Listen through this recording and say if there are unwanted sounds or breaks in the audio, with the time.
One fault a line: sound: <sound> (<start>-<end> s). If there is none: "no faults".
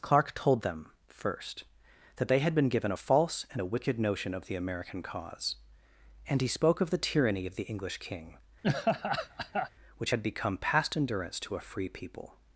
sound: laugh (8.6-9.7 s)